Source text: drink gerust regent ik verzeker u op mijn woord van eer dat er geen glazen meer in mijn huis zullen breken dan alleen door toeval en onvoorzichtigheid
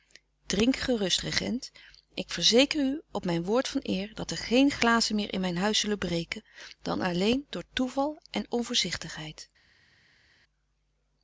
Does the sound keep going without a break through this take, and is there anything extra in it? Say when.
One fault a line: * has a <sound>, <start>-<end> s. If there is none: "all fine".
all fine